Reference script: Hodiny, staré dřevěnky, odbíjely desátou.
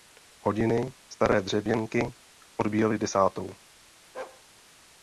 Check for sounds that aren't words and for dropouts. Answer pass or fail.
fail